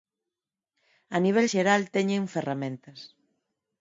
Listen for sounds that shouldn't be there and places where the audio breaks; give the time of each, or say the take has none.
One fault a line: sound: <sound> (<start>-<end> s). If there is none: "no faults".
no faults